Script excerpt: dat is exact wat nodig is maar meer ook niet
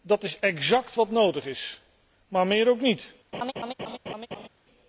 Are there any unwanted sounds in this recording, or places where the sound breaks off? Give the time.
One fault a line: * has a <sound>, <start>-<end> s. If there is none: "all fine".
* has a laugh, 3.3-4.5 s